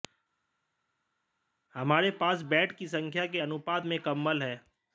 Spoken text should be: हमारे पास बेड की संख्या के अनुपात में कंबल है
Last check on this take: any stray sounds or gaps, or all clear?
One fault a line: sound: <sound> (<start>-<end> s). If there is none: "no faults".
no faults